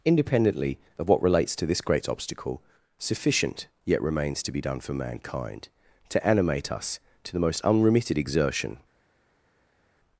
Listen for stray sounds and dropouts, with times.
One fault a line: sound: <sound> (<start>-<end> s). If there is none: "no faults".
no faults